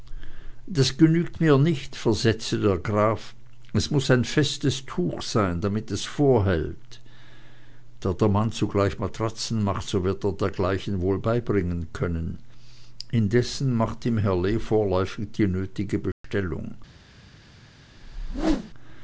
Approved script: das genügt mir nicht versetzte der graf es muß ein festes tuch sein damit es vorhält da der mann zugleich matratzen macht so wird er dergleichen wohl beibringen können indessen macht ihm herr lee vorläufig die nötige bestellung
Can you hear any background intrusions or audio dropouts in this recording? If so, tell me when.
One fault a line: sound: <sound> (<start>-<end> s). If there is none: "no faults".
sound: dropout (16.1-16.2 s)
sound: whoosh (18.0-18.7 s)